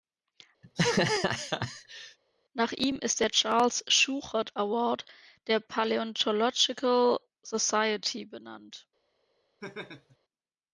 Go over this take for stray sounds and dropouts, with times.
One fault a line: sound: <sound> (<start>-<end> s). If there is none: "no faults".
sound: laugh (0.6-2.2 s)
sound: laugh (9.6-10.2 s)